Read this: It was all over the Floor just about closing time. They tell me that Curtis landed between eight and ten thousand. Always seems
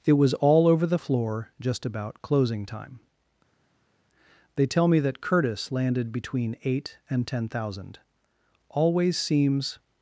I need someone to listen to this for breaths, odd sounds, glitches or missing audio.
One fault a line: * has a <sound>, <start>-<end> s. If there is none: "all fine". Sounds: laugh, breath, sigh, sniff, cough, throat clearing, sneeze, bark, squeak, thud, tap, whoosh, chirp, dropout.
all fine